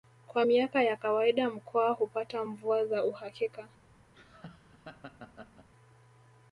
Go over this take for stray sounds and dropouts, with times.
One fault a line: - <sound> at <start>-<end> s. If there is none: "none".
- laugh at 4.1-5.7 s